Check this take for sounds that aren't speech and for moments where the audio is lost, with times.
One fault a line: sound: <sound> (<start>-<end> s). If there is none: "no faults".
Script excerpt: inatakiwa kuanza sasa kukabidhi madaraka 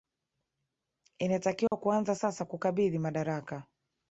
sound: dropout (1.7-1.7 s)